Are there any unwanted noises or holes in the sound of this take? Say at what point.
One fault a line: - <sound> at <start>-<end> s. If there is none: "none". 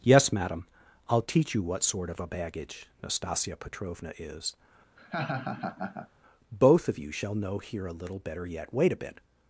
- laugh at 5.0-6.1 s